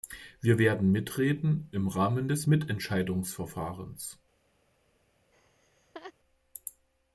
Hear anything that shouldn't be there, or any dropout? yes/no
yes